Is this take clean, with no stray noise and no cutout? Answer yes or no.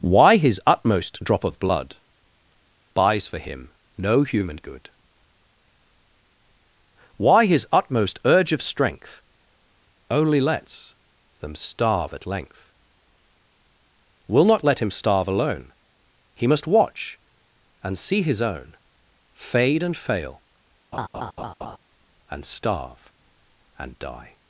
no